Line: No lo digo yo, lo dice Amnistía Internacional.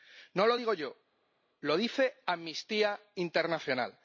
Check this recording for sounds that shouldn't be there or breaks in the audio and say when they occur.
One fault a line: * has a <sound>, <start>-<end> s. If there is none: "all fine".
all fine